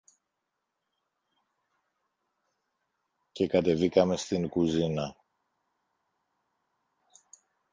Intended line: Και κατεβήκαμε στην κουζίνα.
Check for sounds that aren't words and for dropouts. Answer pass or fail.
pass